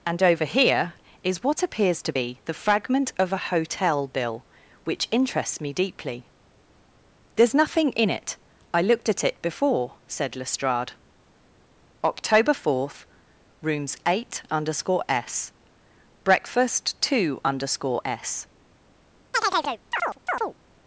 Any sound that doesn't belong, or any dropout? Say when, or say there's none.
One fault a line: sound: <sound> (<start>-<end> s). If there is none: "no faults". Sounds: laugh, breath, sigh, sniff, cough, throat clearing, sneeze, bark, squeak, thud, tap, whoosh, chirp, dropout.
sound: chirp (19.3-20.5 s)